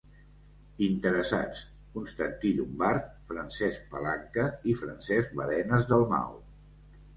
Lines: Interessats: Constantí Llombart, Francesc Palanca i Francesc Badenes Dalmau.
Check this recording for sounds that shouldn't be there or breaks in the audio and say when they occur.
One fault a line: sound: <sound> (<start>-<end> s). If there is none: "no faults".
no faults